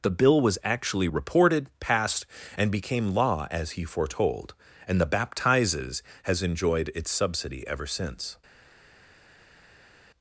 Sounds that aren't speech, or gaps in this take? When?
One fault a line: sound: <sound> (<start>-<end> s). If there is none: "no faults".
no faults